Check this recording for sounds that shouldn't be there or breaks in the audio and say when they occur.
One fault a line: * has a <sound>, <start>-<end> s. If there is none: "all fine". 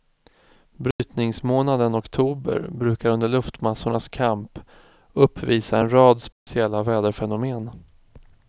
* has a dropout, 0.9-1.0 s
* has a dropout, 6.3-6.5 s